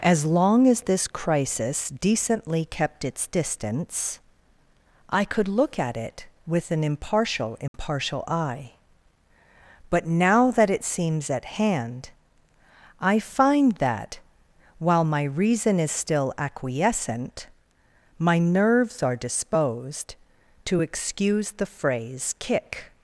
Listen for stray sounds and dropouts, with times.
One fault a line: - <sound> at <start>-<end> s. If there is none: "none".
- dropout at 7.7-7.7 s